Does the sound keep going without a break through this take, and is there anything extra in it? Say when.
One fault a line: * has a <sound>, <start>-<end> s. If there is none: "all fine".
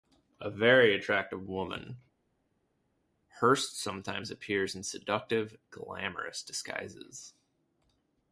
all fine